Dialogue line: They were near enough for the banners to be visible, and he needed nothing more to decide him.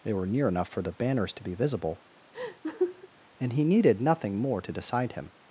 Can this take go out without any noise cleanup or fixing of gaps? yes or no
no